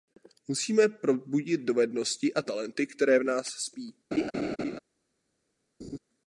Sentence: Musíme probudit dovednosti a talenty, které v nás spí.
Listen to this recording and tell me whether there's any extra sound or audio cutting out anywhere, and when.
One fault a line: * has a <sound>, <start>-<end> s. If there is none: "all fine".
* has a laugh, 4.1-4.8 s
* has a laugh, 5.8-6.0 s